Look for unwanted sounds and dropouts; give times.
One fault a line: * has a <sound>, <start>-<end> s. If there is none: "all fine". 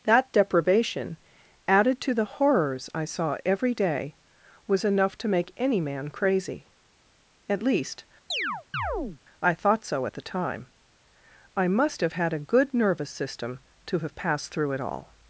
* has a chirp, 8.3-9.2 s